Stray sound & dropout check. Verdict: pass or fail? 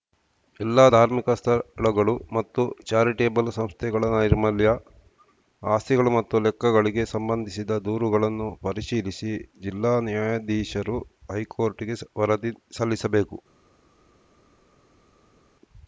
pass